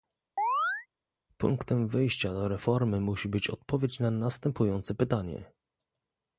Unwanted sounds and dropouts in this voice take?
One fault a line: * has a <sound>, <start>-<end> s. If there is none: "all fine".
* has a chirp, 0.4-0.9 s